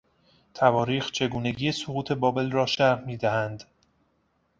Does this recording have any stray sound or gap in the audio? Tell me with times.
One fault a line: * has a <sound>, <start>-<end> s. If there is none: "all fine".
all fine